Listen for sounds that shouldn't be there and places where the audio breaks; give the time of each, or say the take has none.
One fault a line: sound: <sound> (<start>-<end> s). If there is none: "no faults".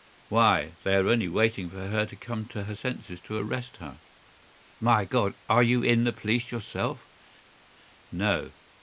no faults